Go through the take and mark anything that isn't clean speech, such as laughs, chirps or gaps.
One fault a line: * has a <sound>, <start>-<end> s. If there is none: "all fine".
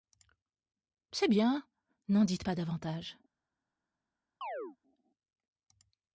* has a chirp, 4.4-4.8 s